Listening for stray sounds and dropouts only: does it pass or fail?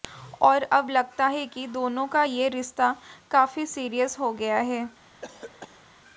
fail